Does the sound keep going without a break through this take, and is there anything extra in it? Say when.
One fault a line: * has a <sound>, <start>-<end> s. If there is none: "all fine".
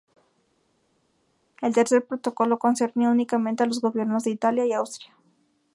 all fine